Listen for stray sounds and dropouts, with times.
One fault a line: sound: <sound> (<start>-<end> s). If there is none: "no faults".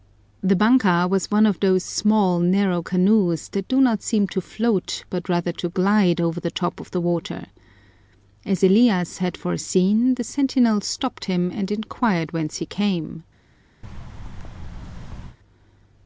sound: thud (13.8-15.4 s)